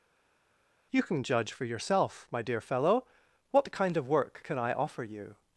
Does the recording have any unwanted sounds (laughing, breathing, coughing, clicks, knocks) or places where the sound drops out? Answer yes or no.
no